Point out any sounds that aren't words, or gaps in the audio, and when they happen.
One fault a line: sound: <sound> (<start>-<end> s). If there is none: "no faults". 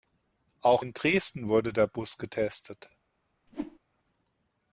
sound: whoosh (3.5-3.8 s)